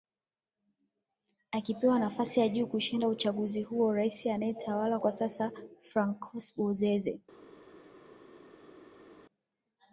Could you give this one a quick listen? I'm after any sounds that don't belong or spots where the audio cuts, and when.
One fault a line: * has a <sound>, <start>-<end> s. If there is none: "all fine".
all fine